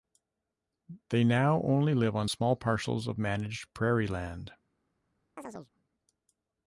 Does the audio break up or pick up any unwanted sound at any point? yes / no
yes